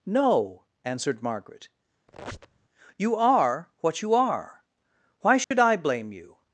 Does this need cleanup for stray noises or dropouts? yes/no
yes